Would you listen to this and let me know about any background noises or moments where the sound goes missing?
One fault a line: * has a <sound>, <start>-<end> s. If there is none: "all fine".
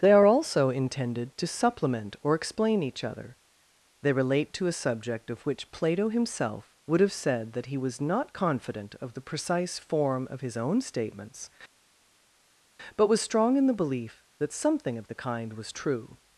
all fine